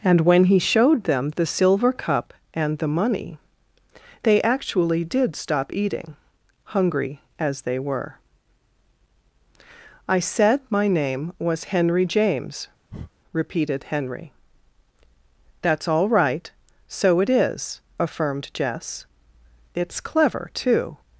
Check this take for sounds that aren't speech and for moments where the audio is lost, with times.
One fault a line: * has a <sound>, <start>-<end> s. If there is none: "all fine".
* has a breath, 12.9-13.1 s